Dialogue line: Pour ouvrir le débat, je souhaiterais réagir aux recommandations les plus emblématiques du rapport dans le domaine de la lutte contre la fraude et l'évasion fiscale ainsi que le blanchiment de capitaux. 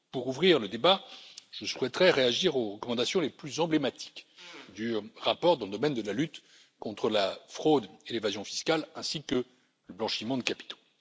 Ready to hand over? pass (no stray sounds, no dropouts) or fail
pass